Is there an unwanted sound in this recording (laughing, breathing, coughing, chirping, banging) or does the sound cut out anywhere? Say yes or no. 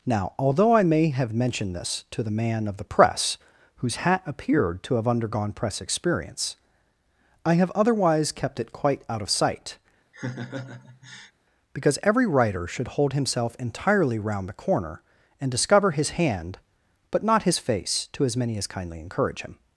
yes